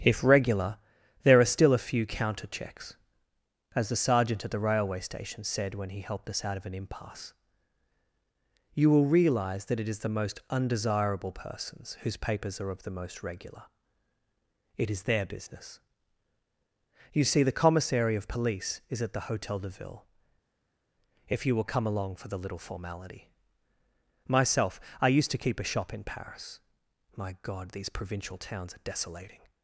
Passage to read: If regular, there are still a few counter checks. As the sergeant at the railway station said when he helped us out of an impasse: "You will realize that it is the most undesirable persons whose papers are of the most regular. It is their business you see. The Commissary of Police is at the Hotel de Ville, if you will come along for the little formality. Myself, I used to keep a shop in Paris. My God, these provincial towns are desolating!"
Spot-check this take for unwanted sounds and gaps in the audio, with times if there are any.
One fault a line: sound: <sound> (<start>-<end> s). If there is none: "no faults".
no faults